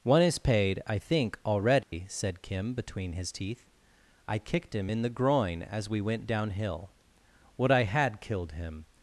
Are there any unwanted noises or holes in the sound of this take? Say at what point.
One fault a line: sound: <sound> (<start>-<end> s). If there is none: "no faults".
sound: dropout (1.8-1.9 s)